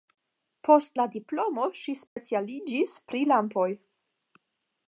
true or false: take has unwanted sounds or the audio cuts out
true